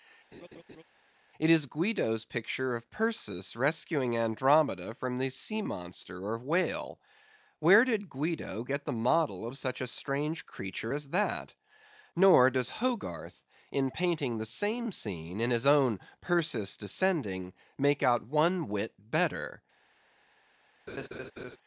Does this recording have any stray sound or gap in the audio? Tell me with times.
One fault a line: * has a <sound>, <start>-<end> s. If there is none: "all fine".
* has a laugh, 0.3-0.8 s
* has a laugh, 20.9-21.6 s